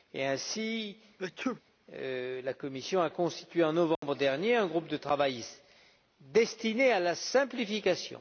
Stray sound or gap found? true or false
true